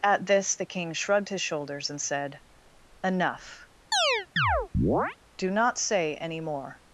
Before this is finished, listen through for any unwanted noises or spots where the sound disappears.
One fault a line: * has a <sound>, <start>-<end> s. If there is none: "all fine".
* has a chirp, 3.9-5.2 s